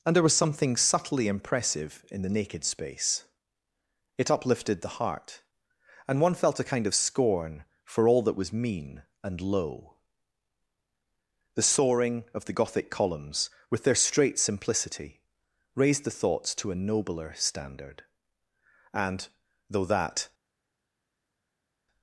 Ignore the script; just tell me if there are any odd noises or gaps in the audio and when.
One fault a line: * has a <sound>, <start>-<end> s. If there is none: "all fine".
all fine